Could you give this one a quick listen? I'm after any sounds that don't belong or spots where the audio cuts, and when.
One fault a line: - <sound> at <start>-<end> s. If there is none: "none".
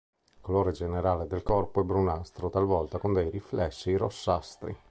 none